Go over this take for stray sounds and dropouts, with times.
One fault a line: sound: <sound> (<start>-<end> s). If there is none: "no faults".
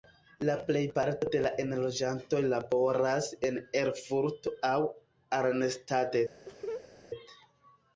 sound: laugh (6.5-6.9 s)